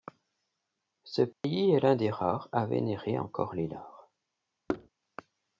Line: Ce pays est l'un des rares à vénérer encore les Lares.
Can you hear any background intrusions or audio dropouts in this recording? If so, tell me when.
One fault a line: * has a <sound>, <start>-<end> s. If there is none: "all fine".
* has a dropout, 1.3-1.4 s
* has a thud, 4.7-4.9 s